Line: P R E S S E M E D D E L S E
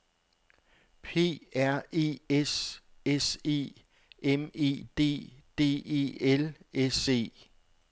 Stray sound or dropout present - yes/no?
no